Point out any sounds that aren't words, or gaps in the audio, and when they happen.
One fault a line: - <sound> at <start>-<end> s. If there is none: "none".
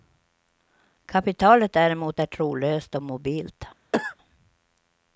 - cough at 3.9-4.2 s